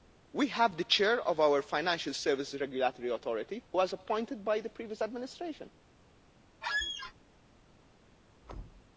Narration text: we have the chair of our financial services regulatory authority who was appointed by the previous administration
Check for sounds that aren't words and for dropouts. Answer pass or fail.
fail